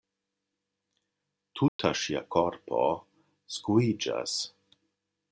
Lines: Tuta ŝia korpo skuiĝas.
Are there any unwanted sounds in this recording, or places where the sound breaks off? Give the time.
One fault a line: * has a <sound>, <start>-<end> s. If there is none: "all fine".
* has a dropout, 1.7-1.8 s